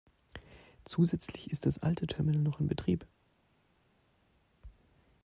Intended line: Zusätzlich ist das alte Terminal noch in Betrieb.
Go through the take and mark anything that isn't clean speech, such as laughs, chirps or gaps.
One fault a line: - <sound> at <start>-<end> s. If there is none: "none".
none